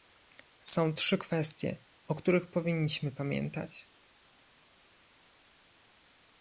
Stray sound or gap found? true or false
false